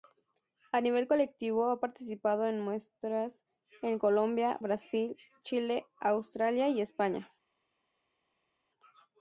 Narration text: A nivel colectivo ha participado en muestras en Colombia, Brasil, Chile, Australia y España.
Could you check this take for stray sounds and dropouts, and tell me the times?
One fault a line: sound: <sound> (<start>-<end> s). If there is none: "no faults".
no faults